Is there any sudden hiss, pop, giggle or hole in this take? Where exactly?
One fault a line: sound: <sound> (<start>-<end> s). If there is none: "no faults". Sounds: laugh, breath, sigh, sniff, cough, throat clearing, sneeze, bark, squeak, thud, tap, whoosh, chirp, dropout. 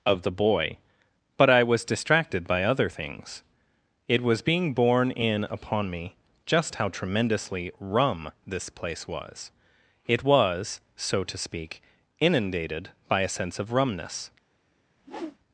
sound: whoosh (15.0-15.4 s)